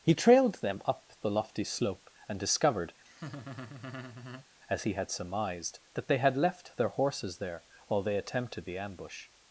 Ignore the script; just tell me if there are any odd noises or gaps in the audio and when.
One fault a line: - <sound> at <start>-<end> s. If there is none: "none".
- laugh at 3.0-4.5 s